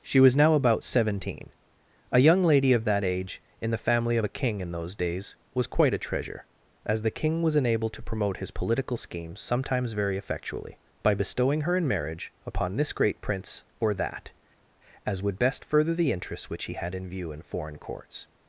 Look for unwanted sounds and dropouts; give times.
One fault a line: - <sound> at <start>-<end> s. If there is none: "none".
none